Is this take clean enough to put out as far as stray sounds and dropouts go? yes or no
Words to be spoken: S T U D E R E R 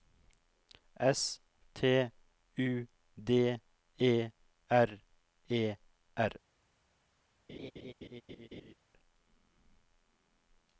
no